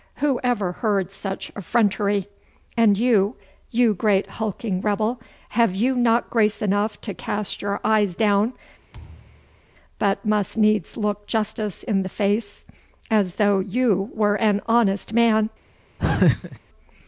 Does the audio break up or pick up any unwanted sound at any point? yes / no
yes